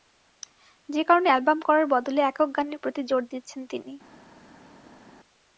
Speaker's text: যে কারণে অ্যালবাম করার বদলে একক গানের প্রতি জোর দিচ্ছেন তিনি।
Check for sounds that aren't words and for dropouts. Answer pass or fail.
pass